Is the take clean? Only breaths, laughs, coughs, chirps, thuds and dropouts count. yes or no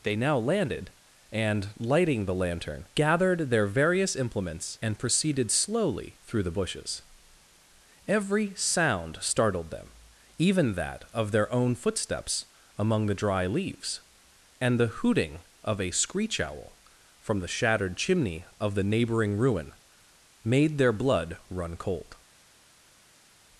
yes